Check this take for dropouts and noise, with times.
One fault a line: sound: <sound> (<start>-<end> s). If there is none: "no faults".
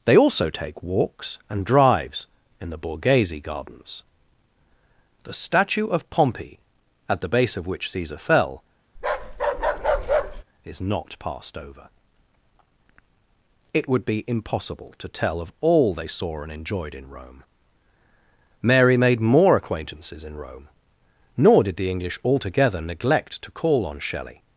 sound: bark (9.0-10.4 s)